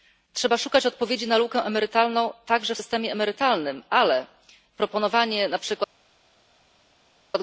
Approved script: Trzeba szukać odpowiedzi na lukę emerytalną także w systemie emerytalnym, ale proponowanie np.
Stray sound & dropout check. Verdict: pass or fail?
pass